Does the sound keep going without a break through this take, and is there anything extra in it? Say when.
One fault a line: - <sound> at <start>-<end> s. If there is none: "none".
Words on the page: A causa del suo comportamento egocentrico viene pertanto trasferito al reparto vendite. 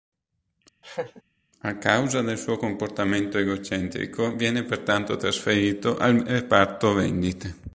- laugh at 0.8-1.2 s